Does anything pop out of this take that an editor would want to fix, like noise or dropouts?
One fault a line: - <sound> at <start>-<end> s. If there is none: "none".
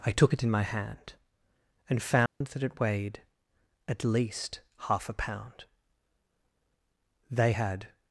- dropout at 2.3-2.4 s